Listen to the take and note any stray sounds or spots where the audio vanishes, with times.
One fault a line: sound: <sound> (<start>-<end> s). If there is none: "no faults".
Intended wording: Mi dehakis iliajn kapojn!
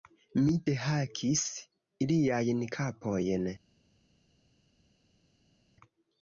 no faults